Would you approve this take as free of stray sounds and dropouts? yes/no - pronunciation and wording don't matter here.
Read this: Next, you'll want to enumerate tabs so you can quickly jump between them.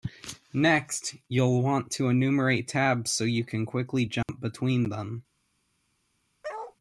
no